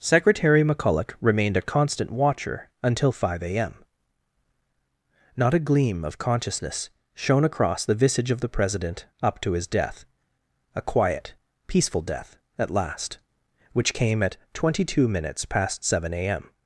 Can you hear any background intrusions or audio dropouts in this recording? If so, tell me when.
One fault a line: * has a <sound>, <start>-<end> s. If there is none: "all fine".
all fine